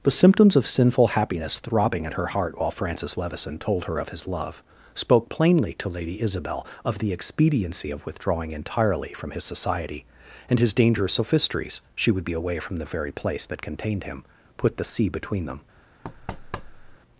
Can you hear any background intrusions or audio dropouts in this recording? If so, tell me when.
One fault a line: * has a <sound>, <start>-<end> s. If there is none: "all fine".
* has a thud, 16.0-17.0 s